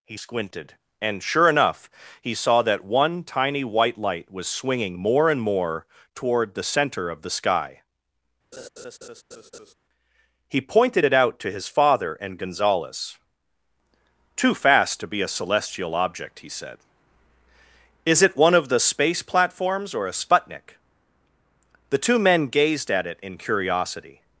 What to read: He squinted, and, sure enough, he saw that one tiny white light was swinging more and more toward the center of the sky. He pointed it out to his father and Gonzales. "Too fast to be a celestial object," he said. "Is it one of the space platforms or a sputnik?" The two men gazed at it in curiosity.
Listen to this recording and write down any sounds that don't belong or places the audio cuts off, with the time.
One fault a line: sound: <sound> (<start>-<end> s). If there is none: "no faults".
sound: laugh (8.5-9.7 s)